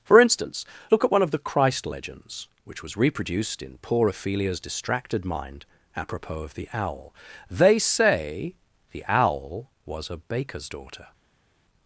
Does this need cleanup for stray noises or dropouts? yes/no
no